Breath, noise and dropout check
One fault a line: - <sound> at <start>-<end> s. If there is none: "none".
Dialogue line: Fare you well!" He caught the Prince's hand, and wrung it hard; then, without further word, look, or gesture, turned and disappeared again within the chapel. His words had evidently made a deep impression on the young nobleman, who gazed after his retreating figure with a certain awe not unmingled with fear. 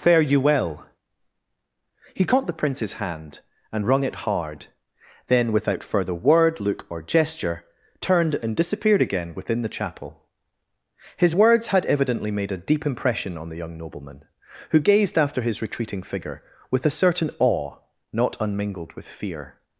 none